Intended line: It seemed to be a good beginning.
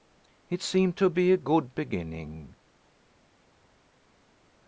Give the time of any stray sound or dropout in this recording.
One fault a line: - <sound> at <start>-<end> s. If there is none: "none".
none